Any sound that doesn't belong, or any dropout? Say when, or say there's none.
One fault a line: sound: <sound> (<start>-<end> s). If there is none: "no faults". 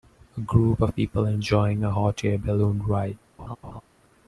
sound: laugh (3.4-3.8 s)